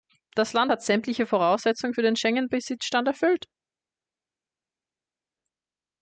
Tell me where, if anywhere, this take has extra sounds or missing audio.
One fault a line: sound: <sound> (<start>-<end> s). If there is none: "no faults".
no faults